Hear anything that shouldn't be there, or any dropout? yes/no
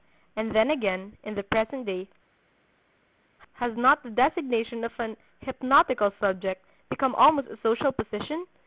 no